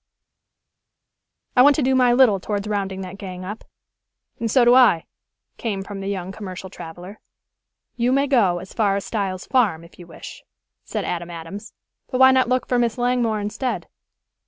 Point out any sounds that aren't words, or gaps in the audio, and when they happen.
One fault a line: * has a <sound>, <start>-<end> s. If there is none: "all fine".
all fine